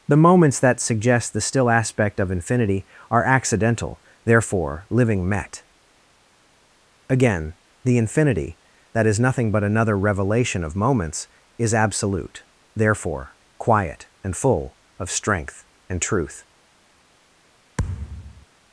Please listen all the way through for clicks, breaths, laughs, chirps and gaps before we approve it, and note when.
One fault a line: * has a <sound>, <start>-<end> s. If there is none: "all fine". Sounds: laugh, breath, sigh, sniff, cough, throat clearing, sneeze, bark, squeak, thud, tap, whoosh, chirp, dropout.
* has a thud, 17.8-18.5 s